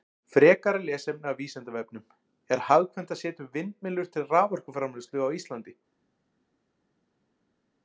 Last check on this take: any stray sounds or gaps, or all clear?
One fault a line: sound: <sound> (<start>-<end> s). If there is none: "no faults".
no faults